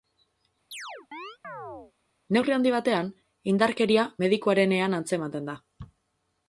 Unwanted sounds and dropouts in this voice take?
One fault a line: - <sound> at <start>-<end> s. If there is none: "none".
- chirp at 0.7-1.9 s